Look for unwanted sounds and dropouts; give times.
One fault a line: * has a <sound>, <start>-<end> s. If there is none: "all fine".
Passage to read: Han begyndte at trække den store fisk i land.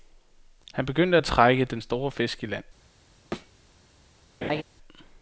* has a thud, 3.3-3.5 s
* has a laugh, 4.4-4.6 s